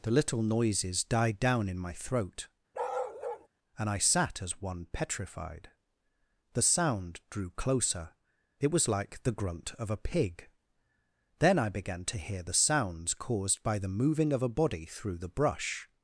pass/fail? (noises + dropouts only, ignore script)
fail